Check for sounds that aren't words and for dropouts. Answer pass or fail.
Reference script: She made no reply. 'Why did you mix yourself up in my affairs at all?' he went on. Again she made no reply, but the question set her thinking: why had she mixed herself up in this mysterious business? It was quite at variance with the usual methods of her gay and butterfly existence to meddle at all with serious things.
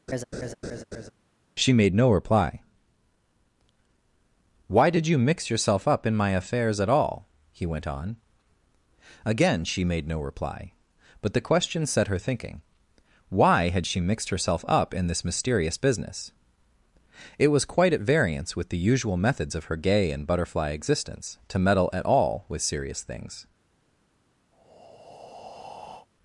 fail